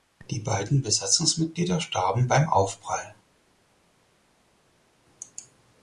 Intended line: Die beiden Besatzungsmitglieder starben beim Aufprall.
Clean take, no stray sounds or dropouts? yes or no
yes